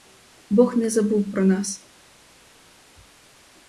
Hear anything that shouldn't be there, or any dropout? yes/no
no